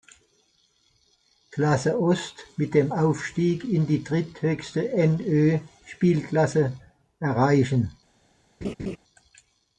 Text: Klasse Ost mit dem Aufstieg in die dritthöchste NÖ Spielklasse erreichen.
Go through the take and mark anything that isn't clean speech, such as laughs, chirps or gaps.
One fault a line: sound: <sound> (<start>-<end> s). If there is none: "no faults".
sound: laugh (8.6-9.0 s)